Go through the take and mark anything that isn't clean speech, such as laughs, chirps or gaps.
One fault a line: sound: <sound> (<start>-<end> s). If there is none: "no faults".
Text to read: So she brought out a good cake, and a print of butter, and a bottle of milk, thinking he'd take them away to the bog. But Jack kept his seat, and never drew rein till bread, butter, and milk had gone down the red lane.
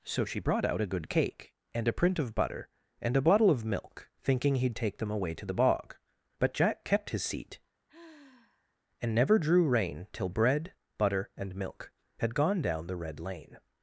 sound: sigh (7.9-8.8 s)